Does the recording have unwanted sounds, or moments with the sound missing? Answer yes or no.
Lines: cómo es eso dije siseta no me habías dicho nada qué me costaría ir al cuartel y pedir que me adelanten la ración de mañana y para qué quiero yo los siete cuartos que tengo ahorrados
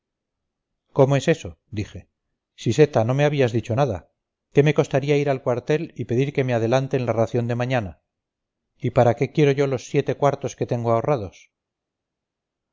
no